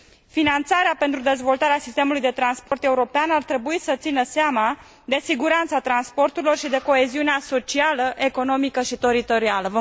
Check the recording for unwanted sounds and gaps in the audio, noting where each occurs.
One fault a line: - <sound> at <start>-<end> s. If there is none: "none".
- dropout at 2.7-2.7 s